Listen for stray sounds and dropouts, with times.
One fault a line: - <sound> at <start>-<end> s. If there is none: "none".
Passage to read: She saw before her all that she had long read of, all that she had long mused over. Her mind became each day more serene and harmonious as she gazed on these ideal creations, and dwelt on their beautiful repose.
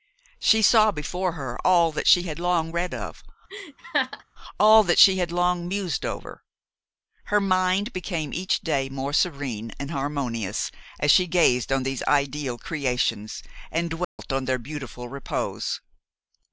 - laugh at 3.5-4.2 s
- dropout at 14.0-14.2 s